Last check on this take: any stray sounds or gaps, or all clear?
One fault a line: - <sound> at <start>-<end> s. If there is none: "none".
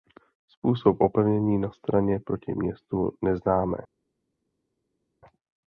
none